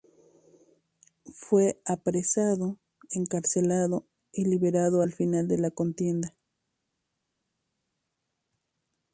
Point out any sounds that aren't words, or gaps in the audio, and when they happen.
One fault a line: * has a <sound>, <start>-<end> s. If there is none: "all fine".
all fine